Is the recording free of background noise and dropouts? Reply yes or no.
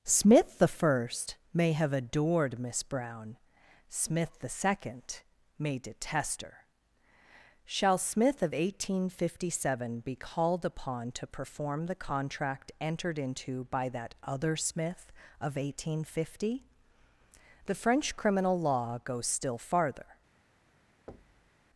no